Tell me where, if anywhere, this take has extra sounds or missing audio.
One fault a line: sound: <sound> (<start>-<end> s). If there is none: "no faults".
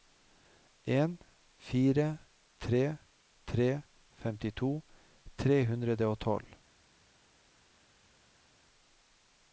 no faults